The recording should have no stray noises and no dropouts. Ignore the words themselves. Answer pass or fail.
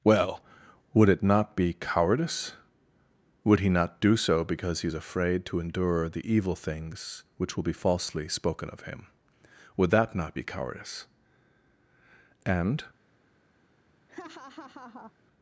fail